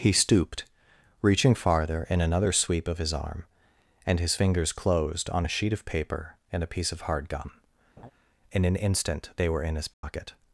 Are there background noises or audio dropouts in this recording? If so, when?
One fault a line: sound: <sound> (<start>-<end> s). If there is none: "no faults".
sound: laugh (8.0-8.1 s)
sound: dropout (9.9-10.0 s)